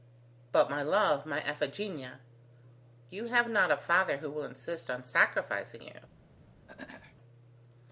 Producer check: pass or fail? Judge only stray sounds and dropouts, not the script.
fail